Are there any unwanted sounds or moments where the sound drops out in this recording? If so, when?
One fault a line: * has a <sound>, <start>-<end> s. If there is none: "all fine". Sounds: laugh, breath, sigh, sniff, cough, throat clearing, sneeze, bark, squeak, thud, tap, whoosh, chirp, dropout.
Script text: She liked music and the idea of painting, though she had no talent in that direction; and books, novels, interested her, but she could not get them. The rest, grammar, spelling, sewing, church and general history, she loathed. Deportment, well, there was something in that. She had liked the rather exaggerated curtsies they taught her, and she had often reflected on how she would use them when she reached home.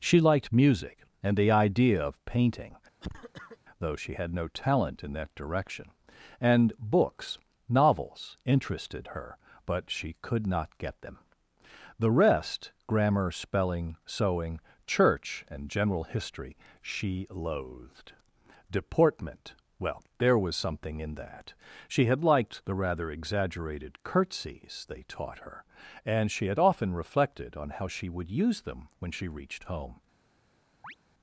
* has a cough, 3.0-3.6 s
* has a chirp, 30.8-31.0 s